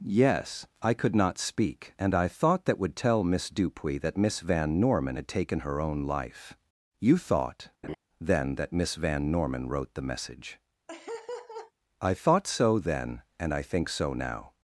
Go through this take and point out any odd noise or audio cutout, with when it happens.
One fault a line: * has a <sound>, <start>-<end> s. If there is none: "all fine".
* has a laugh, 7.8-8.0 s
* has a laugh, 10.9-11.7 s